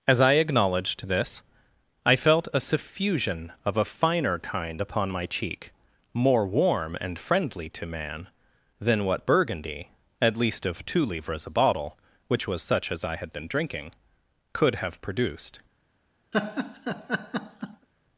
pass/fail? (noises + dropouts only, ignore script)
fail